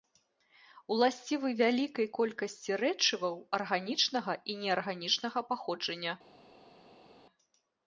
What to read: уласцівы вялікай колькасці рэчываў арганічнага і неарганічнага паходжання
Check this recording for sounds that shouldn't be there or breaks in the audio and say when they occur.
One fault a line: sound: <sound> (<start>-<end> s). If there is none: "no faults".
no faults